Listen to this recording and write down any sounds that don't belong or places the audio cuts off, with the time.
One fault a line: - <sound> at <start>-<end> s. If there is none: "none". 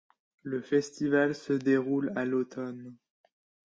none